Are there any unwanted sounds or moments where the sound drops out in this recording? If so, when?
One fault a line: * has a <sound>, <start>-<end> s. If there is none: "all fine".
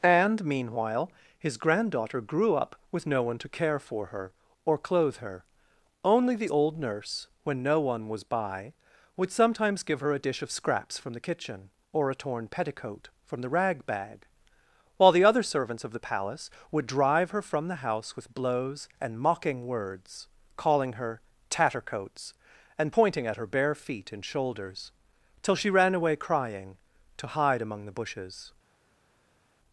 all fine